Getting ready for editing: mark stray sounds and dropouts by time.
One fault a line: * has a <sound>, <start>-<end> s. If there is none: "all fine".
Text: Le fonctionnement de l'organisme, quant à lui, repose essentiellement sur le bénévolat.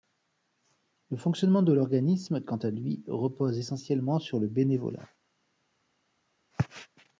all fine